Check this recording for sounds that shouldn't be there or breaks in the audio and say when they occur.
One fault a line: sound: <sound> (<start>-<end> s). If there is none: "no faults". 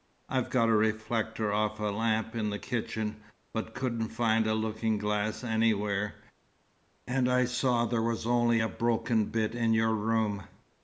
no faults